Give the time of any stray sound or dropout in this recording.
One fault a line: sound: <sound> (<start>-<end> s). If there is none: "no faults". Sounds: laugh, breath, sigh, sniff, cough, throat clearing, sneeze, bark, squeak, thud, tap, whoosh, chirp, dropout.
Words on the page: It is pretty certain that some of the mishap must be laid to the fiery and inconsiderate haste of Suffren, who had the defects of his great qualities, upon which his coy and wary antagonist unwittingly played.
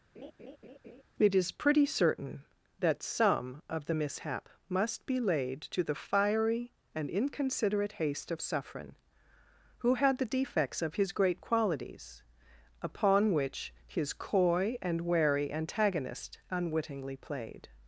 sound: laugh (0.1-1.0 s)